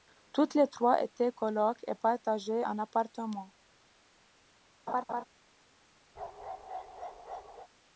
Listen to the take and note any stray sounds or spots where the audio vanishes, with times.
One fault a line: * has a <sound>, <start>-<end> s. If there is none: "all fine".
* has a laugh, 4.9-5.2 s
* has a bark, 6.2-7.7 s